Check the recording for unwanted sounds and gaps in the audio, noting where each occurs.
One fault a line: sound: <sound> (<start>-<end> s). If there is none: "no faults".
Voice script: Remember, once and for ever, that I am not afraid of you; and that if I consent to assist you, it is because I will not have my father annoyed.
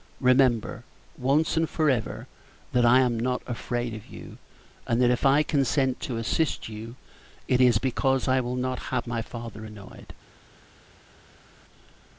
no faults